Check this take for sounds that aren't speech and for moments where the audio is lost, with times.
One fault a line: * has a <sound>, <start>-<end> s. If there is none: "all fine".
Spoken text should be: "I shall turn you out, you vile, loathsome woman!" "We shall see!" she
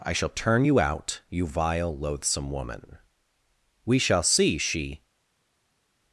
all fine